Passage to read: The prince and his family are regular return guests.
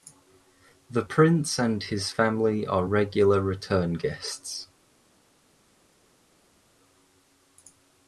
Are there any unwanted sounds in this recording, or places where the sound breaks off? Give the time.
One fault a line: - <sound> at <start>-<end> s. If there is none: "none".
none